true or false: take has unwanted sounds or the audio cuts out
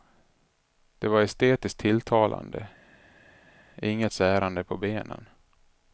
false